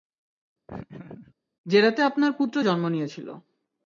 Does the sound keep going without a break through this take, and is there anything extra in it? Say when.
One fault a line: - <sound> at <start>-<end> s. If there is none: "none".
- laugh at 0.7-1.3 s